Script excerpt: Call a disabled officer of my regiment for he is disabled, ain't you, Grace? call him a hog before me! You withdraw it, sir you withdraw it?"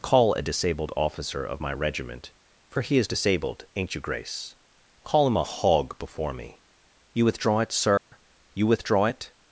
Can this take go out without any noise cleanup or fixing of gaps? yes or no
no